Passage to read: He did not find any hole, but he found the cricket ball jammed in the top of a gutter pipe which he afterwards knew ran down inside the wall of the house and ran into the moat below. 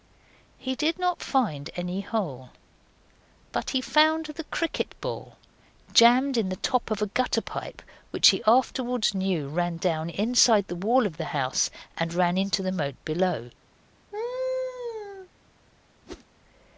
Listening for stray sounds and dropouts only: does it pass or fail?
fail